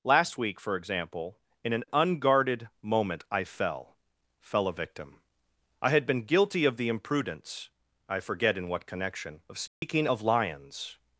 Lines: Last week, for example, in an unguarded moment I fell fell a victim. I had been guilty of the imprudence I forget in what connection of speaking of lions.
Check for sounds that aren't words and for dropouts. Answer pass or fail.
fail